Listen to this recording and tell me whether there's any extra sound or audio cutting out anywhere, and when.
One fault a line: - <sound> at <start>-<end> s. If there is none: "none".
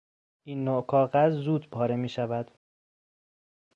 none